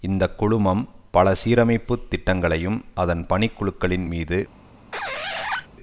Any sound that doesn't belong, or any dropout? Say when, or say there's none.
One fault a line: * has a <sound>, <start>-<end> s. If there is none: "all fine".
* has a squeak, 4.9-5.7 s